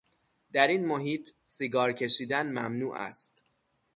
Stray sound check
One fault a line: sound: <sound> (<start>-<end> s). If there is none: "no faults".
no faults